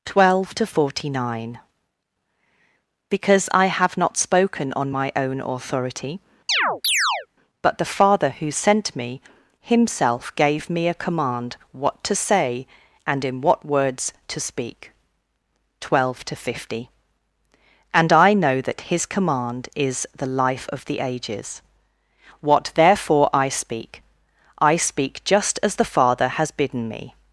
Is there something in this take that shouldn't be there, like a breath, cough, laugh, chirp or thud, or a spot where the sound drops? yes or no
yes